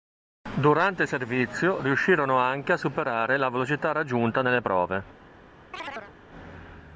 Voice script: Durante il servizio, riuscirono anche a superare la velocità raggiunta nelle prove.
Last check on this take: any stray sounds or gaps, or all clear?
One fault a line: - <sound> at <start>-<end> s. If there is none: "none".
- chirp at 5.7-6.1 s